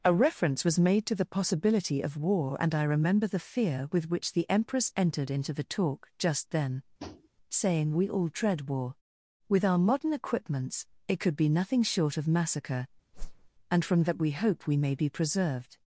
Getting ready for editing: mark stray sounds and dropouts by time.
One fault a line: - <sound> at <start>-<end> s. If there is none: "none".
- tap at 7.0-7.3 s
- whoosh at 13.1-13.5 s